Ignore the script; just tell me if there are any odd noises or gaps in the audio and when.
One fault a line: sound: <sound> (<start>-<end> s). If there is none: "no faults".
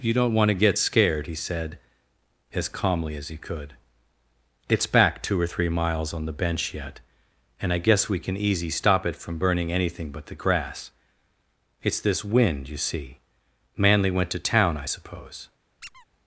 sound: squeak (15.8-16.1 s)